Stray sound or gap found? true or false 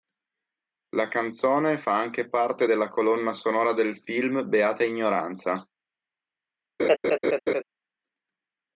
true